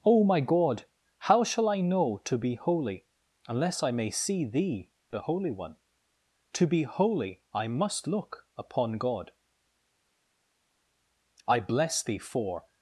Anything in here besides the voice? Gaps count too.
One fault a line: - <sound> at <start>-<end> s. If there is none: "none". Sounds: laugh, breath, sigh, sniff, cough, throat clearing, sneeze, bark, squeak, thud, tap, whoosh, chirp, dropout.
none